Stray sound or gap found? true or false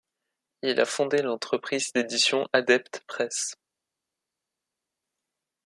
false